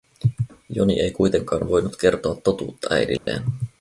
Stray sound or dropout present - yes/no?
yes